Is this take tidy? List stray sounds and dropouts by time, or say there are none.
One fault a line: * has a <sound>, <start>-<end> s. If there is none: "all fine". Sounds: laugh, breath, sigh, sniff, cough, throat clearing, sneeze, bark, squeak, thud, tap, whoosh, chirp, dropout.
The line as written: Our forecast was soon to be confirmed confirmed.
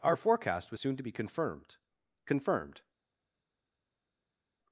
all fine